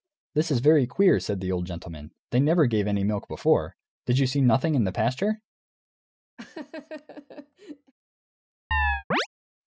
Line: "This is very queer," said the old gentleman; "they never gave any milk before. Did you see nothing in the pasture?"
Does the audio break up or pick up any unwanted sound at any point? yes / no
yes